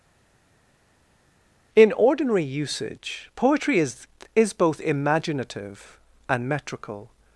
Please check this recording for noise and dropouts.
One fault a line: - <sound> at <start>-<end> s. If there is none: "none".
none